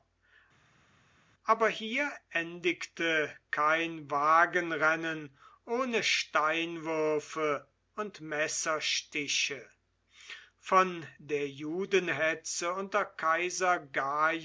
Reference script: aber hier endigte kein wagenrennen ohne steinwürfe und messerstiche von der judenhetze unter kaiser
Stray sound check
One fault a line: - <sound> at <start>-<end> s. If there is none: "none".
none